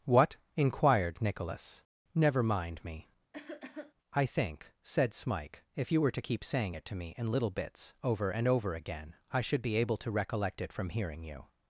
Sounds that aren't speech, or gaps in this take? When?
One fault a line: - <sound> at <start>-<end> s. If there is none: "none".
- cough at 3.3-3.9 s